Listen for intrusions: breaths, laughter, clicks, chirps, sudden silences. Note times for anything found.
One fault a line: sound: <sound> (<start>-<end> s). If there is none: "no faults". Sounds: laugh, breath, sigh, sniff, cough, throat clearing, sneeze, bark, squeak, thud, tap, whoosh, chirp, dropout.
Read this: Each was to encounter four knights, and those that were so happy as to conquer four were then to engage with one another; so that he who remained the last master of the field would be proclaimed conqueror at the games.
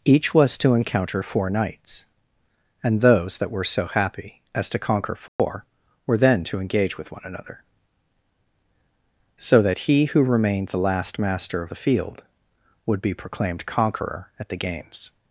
sound: dropout (5.3-5.4 s)